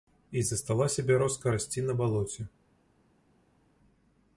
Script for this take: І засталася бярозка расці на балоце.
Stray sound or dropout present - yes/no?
no